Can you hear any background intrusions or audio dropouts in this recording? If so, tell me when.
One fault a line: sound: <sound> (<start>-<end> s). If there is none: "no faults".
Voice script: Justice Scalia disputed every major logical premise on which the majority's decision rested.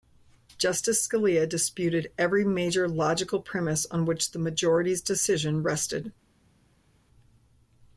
no faults